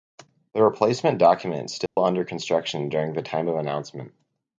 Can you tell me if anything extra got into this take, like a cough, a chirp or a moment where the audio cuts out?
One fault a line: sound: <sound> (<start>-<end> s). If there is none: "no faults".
sound: dropout (1.9-2.0 s)